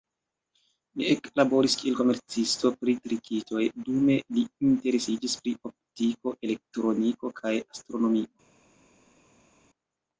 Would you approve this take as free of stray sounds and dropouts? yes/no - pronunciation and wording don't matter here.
yes